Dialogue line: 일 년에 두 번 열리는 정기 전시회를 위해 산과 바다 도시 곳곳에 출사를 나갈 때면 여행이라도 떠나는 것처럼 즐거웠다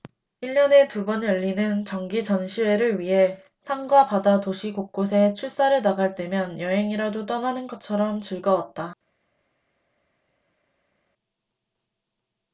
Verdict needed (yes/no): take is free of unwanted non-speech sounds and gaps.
yes